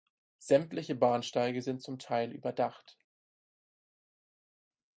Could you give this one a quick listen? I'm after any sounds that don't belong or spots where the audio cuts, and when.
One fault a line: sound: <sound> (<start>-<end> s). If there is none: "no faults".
no faults